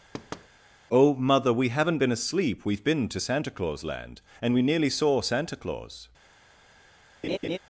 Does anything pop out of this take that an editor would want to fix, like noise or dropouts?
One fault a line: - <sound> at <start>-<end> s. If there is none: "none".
- thud at 0.1-0.5 s
- laugh at 7.2-7.6 s